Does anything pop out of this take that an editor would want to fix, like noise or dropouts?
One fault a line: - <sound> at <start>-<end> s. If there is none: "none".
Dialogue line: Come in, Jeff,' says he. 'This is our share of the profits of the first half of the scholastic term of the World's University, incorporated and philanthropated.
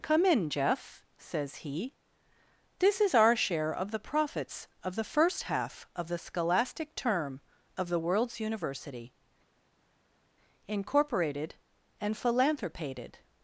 none